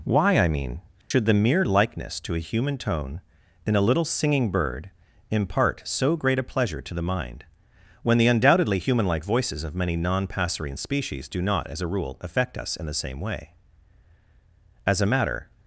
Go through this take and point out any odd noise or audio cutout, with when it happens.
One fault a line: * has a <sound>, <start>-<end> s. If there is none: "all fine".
* has a dropout, 1.0-1.1 s